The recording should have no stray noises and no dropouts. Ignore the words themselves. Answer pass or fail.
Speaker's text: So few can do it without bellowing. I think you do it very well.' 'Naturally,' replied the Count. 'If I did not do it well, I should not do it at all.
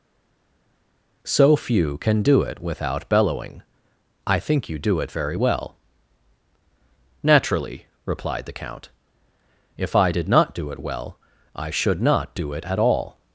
pass